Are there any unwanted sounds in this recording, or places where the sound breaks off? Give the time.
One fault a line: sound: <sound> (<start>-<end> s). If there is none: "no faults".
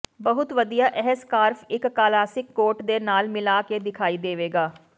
no faults